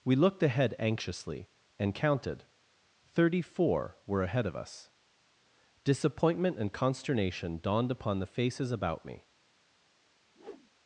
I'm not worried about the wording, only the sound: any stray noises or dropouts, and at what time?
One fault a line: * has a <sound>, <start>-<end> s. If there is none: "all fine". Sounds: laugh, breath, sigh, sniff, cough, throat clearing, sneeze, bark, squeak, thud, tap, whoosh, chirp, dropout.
* has a whoosh, 10.3-10.7 s